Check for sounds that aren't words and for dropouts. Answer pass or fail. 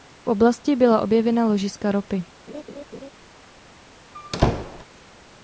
fail